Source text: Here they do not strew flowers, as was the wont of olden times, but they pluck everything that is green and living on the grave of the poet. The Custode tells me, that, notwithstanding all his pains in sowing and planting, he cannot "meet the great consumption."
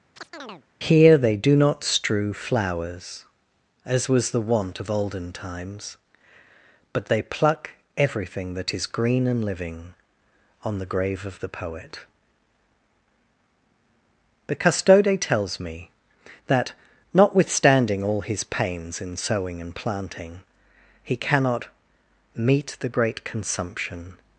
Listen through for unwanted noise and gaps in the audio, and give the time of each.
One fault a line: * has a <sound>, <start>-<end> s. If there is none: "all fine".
* has a chirp, 0.2-0.6 s